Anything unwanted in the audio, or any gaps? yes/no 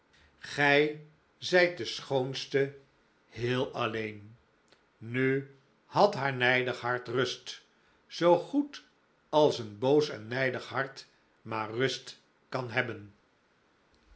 no